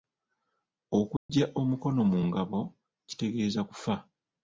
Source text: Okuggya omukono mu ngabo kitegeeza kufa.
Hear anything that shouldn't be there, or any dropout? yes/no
yes